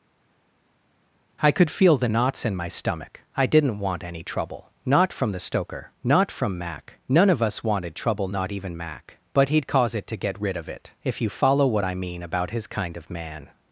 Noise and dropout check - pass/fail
pass